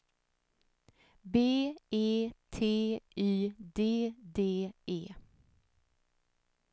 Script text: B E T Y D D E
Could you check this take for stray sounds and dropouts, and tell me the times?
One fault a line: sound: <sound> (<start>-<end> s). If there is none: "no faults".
no faults